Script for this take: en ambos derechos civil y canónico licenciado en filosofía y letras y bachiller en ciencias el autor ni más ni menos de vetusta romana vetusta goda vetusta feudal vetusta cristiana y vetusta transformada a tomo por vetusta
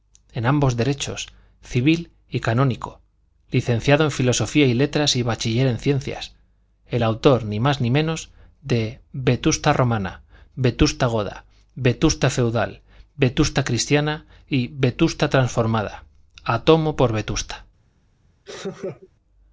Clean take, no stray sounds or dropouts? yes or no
no